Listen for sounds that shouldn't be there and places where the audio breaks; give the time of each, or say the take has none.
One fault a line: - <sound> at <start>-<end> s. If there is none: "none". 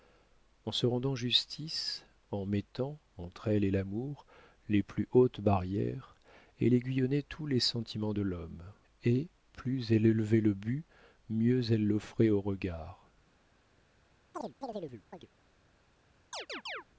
- chirp at 14.3-15.3 s
- chirp at 16.3-16.8 s